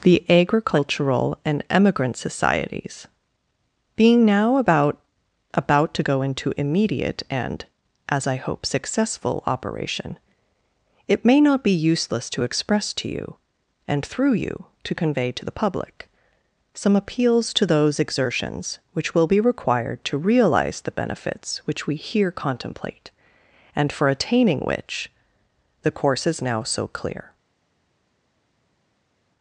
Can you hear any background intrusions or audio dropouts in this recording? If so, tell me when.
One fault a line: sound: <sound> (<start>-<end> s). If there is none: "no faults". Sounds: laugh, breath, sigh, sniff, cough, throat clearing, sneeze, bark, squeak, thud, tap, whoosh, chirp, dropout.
no faults